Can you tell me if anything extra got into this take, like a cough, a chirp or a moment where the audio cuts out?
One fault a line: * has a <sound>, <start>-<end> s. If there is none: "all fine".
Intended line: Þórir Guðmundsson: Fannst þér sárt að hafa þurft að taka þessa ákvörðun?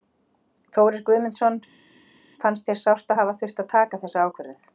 all fine